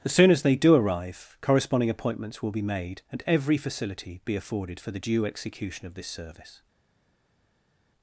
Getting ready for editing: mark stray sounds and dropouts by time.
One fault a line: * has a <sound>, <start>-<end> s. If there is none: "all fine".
all fine